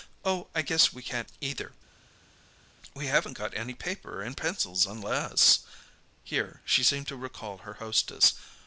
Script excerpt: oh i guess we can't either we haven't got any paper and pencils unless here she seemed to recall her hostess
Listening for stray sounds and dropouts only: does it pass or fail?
pass